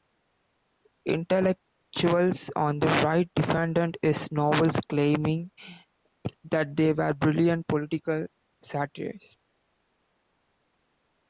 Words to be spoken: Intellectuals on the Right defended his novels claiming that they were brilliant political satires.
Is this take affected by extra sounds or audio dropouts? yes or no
no